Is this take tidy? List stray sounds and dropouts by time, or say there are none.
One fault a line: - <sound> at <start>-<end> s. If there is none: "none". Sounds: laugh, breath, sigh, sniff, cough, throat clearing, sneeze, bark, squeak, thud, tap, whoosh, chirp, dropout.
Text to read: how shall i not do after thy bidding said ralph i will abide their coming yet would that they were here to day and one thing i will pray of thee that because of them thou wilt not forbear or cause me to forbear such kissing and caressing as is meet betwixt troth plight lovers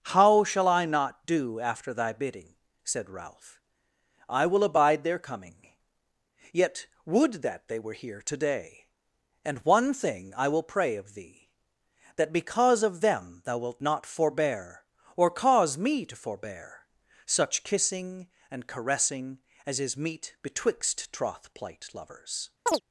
- chirp at 22.7-22.8 s